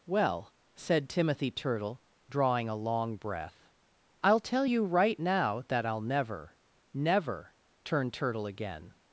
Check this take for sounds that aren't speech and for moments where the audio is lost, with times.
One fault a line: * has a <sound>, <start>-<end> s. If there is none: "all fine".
all fine